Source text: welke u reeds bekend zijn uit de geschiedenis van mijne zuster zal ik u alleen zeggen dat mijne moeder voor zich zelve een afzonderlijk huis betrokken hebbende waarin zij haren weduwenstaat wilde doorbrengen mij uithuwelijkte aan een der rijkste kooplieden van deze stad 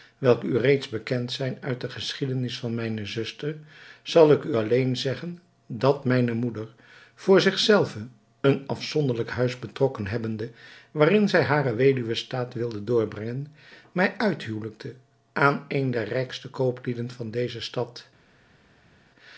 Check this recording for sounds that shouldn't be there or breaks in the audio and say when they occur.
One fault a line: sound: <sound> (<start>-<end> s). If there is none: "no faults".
no faults